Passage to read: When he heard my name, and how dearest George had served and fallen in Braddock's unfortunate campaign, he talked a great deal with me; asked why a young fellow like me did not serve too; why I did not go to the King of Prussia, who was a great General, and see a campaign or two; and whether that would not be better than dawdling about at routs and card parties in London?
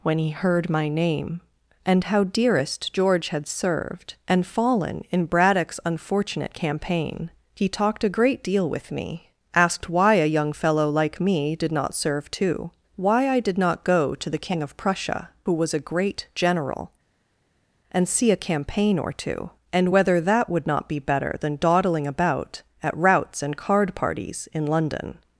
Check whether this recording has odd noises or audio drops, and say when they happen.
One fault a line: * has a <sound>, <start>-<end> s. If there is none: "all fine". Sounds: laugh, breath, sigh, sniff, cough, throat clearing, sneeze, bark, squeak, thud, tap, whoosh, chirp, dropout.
all fine